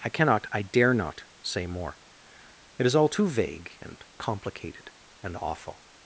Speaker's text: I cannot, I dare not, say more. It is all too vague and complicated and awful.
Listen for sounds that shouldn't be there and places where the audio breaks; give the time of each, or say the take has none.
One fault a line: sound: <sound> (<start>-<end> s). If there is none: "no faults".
no faults